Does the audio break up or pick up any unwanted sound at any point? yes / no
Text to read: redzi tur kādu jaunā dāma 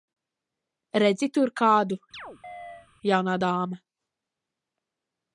yes